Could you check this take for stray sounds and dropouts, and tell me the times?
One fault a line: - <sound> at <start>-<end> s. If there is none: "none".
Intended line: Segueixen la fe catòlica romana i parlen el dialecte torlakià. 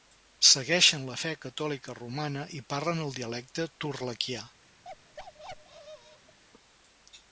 - bark at 4.8-6.4 s